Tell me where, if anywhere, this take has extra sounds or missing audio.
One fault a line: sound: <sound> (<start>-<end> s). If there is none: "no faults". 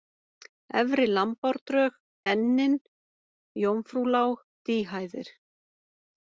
no faults